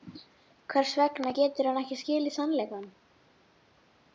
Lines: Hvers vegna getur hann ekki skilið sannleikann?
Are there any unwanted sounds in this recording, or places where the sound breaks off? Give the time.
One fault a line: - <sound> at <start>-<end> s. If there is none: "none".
none